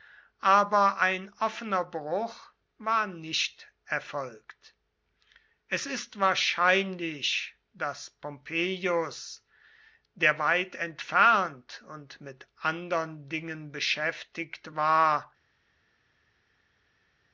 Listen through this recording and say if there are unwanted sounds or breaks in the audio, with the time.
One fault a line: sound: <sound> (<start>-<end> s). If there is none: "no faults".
no faults